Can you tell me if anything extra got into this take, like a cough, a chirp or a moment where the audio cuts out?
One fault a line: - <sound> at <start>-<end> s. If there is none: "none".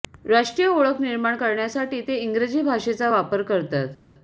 none